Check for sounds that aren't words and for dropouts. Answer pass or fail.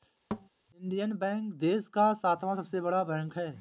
fail